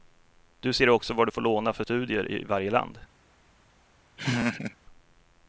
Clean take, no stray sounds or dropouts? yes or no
no